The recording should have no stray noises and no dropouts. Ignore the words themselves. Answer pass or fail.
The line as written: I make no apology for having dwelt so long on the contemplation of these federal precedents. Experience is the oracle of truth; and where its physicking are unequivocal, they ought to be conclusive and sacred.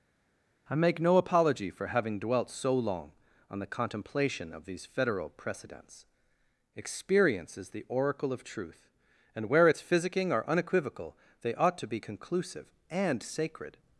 pass